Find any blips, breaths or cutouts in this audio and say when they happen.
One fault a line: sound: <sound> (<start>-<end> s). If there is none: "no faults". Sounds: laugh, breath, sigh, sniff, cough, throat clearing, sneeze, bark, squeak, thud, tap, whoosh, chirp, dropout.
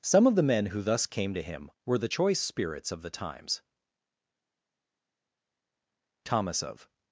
no faults